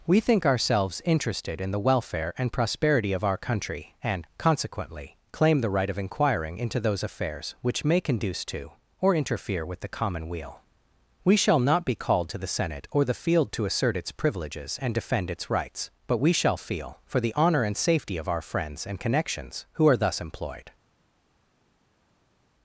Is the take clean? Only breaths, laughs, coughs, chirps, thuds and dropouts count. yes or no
yes